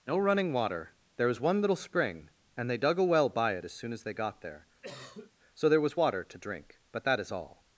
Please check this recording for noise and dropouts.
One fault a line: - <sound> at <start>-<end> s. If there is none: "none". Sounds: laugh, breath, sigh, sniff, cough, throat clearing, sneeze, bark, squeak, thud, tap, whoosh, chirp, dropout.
- cough at 4.8-5.3 s